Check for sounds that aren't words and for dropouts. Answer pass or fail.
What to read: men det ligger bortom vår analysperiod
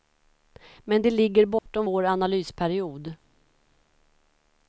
fail